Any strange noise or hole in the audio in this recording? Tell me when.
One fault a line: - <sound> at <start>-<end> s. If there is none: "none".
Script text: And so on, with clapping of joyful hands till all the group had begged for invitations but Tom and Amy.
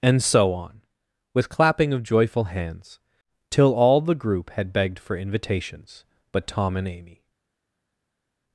none